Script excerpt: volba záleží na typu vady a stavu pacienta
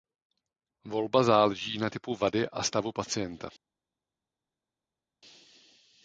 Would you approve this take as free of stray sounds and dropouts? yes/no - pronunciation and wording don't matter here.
yes